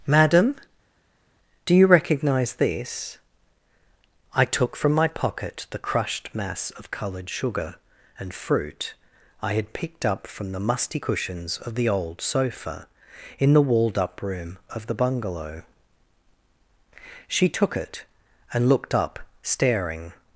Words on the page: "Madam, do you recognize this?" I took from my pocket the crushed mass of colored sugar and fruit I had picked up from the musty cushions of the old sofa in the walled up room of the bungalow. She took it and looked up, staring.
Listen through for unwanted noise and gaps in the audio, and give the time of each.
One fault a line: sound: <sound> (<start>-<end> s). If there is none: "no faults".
no faults